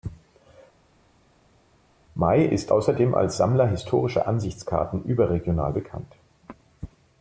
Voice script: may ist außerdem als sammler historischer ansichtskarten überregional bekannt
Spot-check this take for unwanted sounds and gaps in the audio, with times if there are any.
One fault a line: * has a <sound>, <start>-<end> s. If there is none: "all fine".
all fine